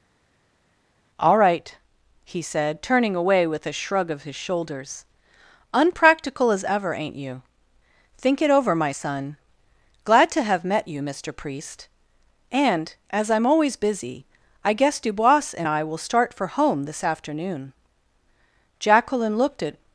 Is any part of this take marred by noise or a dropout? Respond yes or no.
no